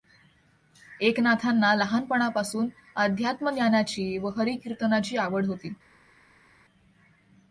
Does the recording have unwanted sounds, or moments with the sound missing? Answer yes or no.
no